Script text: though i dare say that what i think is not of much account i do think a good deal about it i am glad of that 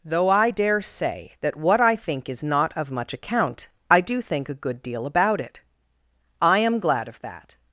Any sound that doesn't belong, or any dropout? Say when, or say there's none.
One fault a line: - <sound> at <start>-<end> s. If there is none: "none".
none